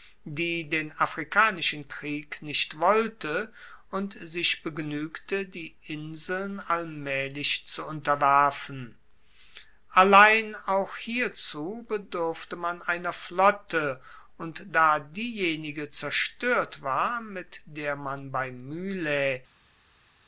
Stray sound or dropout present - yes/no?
no